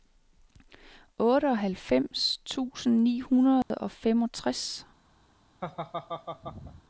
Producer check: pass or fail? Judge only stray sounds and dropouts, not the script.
fail